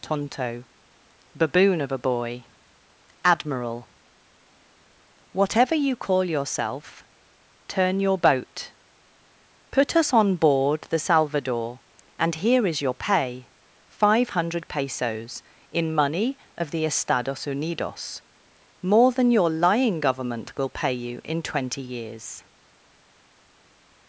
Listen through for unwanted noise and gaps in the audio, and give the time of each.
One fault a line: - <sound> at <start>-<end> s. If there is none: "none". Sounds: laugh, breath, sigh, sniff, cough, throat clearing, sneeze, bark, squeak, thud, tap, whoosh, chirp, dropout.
none